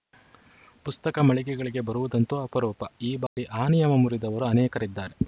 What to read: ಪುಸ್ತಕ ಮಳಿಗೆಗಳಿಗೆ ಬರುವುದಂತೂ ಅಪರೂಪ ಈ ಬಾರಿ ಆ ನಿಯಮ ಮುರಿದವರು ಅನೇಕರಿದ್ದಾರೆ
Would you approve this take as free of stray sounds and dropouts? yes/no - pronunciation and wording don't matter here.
no